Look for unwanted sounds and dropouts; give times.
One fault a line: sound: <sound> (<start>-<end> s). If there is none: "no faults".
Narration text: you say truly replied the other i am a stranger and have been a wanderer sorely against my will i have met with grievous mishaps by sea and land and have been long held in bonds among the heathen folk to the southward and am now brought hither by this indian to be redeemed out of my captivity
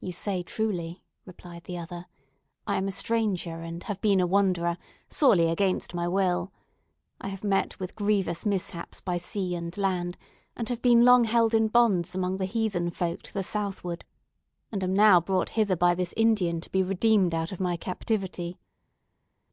no faults